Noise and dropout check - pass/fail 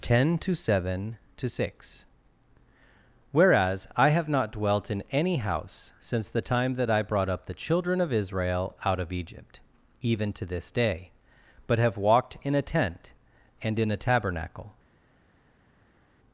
pass